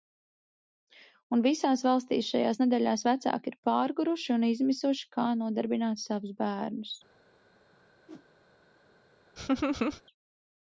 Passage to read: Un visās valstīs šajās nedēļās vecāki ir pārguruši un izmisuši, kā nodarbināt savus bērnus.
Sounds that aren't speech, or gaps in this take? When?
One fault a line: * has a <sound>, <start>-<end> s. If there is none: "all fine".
* has a whoosh, 8.1-8.3 s
* has a laugh, 9.4-10.0 s